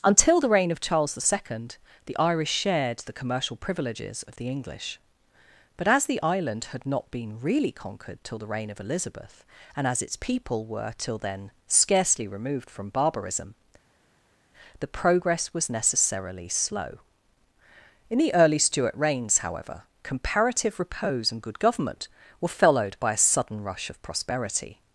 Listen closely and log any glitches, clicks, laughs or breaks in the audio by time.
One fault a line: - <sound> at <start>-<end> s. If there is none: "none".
none